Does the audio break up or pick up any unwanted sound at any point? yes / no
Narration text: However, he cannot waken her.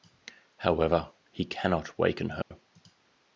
yes